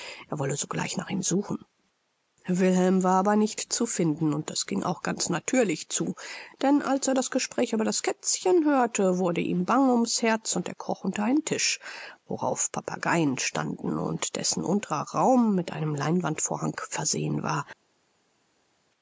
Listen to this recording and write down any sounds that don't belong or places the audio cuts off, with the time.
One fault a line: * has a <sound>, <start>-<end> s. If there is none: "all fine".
all fine